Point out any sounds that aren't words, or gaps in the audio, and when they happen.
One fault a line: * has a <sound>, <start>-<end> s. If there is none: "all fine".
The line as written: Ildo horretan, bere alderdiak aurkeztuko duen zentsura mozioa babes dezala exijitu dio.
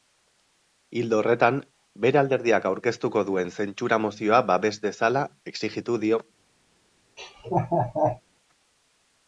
* has a laugh, 7.2-8.2 s